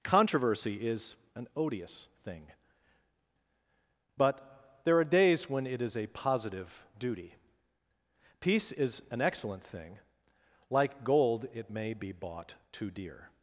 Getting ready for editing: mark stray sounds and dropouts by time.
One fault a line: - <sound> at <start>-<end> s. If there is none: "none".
none